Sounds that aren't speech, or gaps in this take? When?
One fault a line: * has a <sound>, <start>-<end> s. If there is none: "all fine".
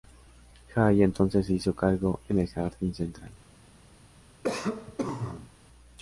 * has a cough, 4.4-5.5 s